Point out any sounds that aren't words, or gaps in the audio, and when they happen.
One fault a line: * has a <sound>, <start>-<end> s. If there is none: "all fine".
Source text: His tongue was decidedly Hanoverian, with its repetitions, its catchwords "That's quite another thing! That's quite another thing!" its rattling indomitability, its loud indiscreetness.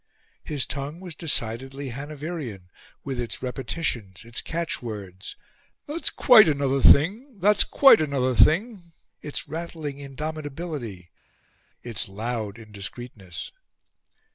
all fine